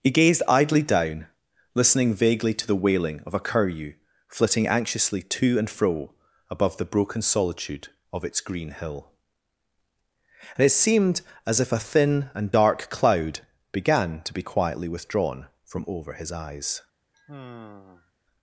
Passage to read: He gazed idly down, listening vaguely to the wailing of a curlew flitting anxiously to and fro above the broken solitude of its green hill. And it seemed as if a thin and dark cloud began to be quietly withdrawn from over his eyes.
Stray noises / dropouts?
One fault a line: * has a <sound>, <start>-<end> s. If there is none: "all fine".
* has a sigh, 17.1-18.1 s